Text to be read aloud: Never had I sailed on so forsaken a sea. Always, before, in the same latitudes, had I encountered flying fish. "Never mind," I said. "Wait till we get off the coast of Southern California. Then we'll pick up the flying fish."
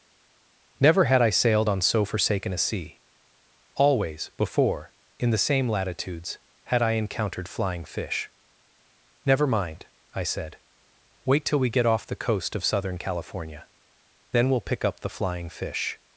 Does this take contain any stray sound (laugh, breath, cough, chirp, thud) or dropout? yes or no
no